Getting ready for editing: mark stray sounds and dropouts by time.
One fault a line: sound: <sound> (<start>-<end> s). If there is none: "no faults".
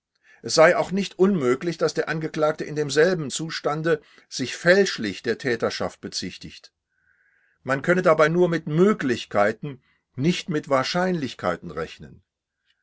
no faults